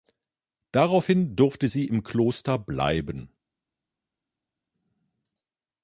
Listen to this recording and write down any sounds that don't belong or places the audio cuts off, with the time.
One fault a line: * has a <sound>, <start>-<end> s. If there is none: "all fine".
all fine